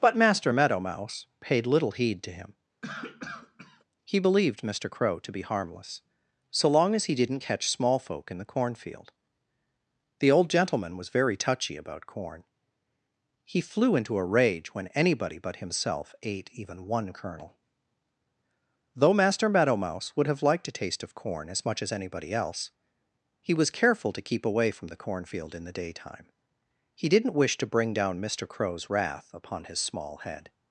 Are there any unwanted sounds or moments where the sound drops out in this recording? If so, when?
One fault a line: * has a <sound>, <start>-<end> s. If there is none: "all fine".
* has a cough, 2.8-3.8 s